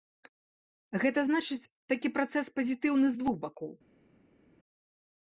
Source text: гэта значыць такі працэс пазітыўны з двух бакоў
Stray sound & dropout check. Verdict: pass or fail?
pass